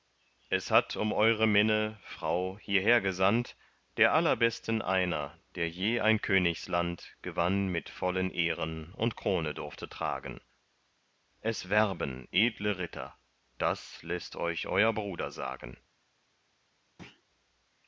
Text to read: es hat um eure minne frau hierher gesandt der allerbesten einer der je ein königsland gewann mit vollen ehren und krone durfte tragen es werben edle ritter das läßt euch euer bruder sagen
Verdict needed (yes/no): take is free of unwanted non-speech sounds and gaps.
no